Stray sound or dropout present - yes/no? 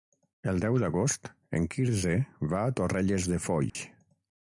yes